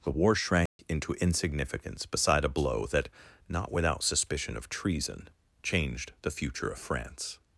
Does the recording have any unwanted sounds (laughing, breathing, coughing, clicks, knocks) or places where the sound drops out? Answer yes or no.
yes